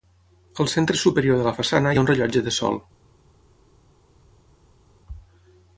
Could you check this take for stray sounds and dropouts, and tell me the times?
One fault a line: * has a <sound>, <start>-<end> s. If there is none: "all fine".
all fine